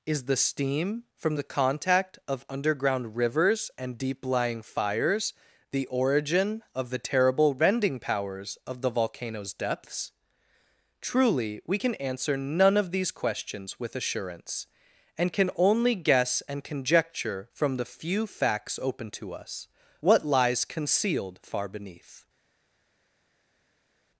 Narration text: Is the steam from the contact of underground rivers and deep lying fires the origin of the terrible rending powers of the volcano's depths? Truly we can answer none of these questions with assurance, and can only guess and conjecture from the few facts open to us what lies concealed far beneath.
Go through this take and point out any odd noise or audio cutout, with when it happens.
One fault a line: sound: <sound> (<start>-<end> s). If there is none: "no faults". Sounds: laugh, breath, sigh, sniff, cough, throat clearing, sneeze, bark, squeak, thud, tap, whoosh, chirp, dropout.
no faults